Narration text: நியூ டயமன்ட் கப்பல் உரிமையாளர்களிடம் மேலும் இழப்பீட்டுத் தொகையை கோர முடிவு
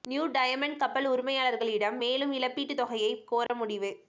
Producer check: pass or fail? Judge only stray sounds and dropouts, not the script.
fail